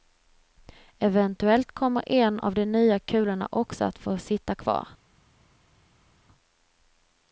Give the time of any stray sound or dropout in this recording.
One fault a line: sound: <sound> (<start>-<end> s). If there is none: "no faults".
no faults